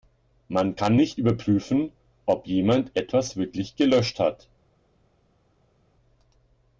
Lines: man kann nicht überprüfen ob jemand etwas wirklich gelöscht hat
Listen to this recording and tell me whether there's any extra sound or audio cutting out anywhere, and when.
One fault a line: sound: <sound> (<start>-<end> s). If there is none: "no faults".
no faults